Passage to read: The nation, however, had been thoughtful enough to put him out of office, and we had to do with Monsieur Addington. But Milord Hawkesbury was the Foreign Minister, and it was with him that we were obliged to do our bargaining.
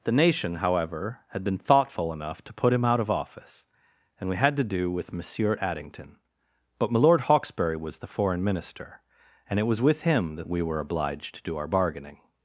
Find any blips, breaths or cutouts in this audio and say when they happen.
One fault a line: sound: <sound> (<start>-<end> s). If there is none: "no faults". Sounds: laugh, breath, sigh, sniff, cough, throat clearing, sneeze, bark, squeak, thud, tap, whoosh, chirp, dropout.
no faults